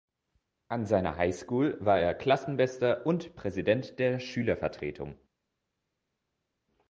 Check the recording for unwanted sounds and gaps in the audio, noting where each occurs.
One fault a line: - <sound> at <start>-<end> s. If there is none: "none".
none